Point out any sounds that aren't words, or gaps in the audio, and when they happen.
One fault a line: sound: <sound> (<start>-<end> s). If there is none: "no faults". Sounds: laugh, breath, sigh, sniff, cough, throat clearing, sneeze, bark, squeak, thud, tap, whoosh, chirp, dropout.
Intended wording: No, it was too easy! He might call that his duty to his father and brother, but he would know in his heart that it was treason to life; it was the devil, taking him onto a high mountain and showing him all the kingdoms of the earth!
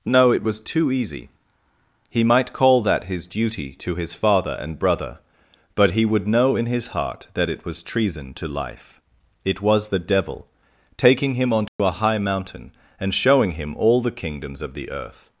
sound: dropout (11.7-11.8 s)